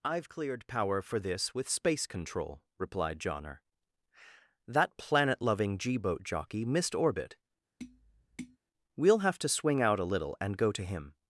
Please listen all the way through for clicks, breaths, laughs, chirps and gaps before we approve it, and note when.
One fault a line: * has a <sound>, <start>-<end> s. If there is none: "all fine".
* has a tap, 7.8-8.6 s